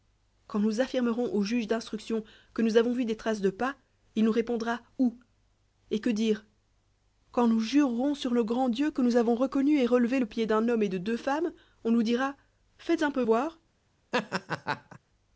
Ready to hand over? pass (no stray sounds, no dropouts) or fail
fail